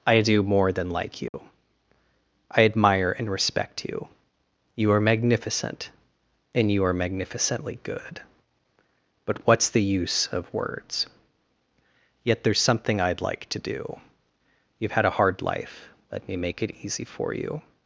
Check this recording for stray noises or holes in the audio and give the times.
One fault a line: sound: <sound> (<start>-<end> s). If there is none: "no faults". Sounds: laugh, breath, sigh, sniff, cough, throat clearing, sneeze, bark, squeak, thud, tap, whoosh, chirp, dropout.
sound: dropout (1.3-1.3 s)